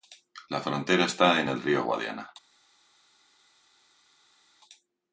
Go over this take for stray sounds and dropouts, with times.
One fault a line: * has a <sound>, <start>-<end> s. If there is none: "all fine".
all fine